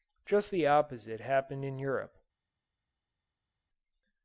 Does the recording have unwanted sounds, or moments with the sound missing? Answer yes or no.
no